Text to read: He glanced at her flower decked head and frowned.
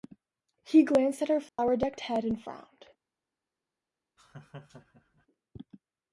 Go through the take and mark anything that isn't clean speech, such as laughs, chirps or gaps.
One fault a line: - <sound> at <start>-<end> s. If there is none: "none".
- dropout at 1.5-1.6 s
- laugh at 4.2-5.3 s